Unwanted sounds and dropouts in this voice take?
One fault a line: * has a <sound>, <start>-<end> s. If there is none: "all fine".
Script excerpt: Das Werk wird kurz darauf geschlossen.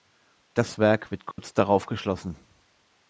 * has a dropout, 1.3-1.4 s